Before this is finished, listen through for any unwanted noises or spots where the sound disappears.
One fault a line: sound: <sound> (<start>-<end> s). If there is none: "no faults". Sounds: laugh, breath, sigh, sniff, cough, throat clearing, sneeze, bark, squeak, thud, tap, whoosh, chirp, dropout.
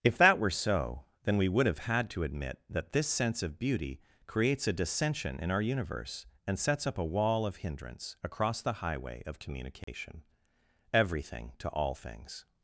sound: dropout (9.8-9.9 s)